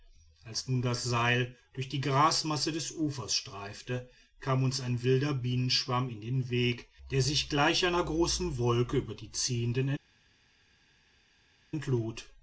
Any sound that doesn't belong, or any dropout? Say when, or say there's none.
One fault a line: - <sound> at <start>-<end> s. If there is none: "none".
none